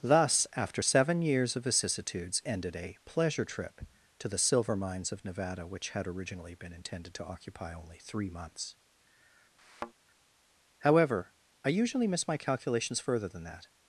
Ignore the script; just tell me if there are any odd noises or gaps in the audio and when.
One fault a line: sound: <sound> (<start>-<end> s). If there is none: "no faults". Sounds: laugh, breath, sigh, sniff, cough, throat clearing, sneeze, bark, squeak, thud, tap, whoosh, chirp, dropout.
sound: thud (9.6-9.9 s)